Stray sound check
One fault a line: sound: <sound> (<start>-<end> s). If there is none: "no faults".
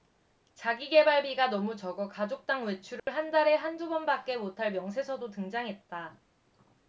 sound: dropout (3.0-3.1 s)